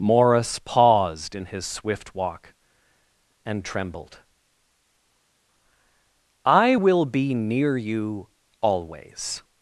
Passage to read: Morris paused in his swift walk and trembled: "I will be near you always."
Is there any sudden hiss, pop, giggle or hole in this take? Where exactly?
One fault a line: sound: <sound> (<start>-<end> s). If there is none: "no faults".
no faults